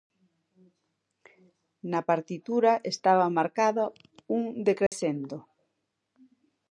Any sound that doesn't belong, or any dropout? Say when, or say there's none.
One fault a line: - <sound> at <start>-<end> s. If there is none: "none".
- dropout at 4.9-4.9 s